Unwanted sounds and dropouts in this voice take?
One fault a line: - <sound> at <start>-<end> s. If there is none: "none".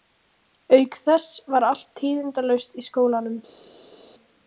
none